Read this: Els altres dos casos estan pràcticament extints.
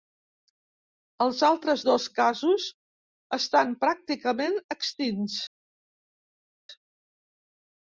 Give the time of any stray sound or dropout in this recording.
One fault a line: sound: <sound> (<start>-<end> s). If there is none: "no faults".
no faults